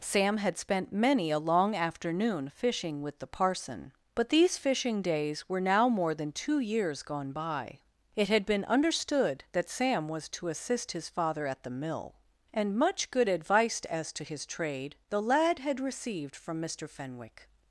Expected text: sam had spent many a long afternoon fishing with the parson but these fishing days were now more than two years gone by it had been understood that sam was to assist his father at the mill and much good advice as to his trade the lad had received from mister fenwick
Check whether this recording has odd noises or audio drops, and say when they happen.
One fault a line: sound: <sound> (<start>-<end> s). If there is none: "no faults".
no faults